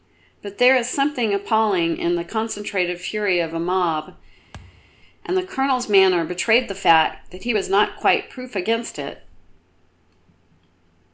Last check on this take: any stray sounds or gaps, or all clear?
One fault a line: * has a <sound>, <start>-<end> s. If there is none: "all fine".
* has a thud, 4.5-5.0 s